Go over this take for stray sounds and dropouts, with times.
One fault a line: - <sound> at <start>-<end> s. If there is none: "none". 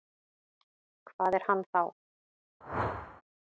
- whoosh at 2.6-3.2 s